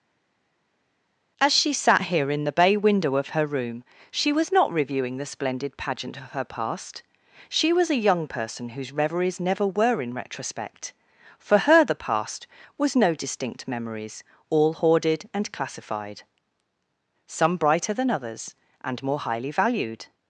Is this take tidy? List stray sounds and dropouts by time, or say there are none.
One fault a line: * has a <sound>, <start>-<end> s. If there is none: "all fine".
all fine